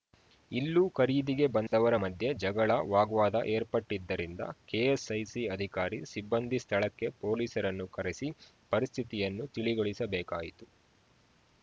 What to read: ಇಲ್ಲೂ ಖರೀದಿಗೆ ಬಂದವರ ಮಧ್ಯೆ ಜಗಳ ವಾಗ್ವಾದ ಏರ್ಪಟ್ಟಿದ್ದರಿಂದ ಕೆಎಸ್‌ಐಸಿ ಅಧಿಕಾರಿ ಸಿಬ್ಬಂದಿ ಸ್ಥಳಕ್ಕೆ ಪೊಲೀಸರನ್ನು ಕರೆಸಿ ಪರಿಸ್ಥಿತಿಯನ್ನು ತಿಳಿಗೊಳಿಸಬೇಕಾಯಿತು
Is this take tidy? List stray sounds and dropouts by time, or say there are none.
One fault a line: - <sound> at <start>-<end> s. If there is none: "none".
- dropout at 1.7-1.7 s